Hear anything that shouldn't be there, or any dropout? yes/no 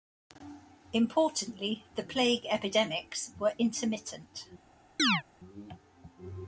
yes